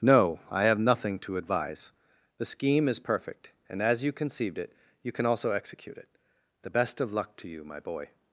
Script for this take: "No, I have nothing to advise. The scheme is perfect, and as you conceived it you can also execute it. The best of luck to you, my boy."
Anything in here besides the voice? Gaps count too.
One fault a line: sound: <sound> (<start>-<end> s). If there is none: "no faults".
no faults